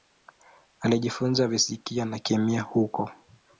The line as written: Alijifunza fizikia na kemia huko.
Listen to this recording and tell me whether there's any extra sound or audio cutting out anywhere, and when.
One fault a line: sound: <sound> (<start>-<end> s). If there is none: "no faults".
no faults